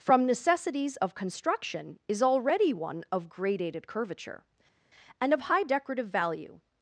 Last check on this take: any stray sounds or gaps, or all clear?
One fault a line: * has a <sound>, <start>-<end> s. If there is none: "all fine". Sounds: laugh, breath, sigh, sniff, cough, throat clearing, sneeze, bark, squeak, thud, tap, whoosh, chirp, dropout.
all fine